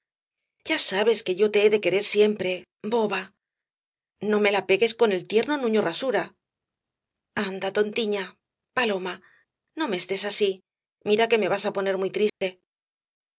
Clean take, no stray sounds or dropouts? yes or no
no